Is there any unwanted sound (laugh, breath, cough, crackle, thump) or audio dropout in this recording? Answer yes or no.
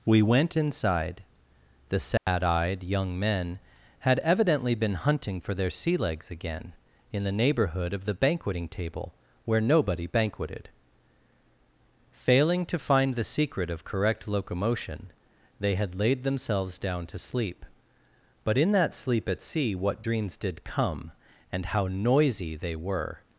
yes